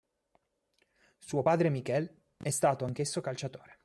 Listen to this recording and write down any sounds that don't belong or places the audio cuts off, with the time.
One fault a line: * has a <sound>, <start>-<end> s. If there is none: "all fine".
all fine